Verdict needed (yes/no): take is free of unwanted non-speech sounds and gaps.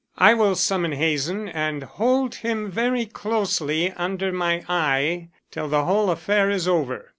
yes